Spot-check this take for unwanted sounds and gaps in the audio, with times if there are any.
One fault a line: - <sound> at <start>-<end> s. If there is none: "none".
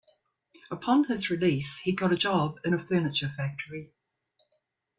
none